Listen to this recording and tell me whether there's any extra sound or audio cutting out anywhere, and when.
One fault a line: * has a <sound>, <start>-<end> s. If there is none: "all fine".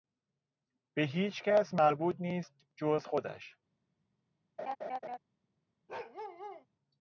* has a laugh, 4.6-5.2 s
* has a bark, 5.9-6.7 s